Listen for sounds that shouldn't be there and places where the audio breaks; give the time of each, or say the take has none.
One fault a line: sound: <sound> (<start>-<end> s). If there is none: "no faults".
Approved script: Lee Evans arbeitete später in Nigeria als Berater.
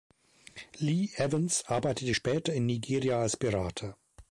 no faults